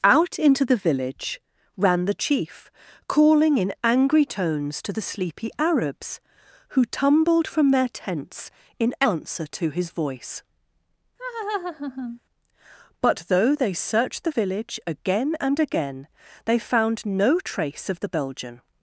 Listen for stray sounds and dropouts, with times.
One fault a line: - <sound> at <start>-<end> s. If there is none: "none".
- laugh at 11.2-12.2 s